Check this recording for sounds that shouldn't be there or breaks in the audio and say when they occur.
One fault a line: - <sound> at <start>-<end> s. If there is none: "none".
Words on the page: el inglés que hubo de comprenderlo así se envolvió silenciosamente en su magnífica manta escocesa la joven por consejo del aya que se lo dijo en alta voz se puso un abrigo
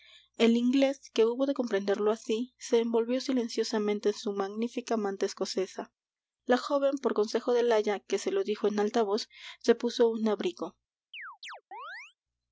- chirp at 11.1-12.1 s